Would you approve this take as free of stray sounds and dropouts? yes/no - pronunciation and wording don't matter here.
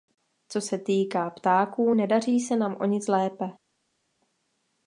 yes